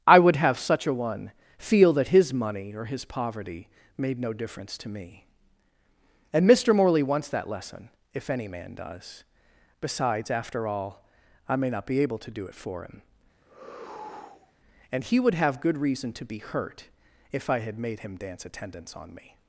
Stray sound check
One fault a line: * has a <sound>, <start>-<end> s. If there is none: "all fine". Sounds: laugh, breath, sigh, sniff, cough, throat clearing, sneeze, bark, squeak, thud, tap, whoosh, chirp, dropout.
* has a sigh, 13.4-14.5 s